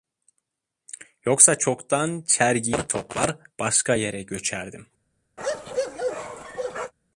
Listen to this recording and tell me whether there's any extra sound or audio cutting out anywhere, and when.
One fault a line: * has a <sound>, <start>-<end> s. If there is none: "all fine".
* has a bark, 5.4-6.9 s